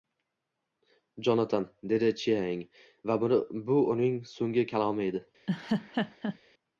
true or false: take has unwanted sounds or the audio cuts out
true